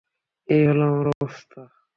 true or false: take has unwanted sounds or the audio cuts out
true